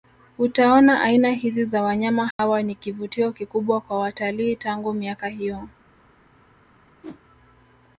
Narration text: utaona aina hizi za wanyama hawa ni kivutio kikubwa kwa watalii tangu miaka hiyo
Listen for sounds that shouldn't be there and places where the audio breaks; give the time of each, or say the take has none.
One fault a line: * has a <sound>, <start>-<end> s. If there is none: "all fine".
* has a dropout, 2.3-2.4 s
* has a whoosh, 7.0-7.2 s